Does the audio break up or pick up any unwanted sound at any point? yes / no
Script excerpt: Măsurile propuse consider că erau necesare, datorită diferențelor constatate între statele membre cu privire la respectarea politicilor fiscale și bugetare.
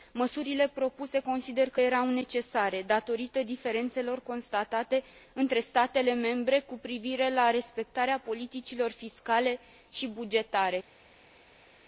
no